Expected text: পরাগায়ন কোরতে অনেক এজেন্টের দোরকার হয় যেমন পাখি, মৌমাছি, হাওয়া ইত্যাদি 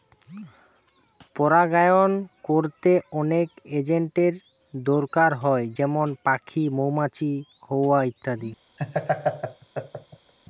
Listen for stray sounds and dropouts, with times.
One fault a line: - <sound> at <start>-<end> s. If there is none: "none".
- laugh at 8.8-10.3 s